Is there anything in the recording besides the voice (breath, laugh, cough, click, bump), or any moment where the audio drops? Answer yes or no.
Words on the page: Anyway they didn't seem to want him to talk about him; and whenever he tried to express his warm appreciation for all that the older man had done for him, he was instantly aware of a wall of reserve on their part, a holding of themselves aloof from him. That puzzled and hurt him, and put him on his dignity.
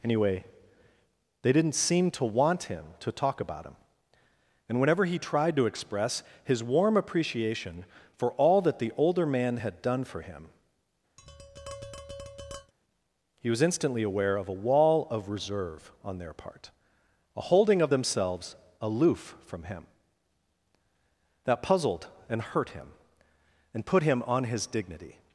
yes